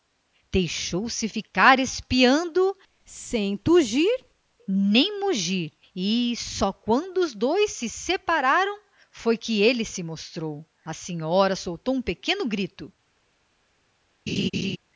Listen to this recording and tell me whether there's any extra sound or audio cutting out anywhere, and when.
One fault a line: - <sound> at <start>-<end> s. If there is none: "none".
- laugh at 14.3-14.8 s